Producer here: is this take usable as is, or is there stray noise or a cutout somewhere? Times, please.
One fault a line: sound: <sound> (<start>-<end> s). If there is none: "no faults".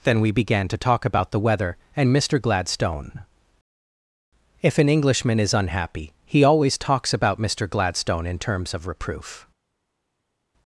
no faults